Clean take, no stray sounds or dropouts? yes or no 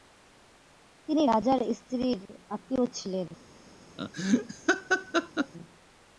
no